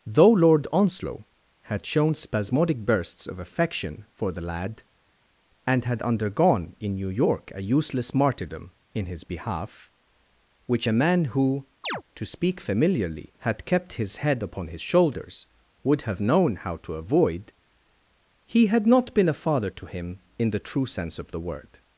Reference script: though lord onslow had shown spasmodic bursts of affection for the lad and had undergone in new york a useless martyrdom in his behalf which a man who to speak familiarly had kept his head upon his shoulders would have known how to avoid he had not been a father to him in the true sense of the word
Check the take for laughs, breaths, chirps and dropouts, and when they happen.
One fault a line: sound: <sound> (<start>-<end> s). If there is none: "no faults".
sound: chirp (11.8-12.0 s)